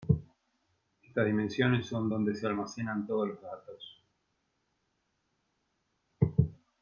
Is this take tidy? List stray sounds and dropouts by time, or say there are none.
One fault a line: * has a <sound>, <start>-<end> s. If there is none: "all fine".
all fine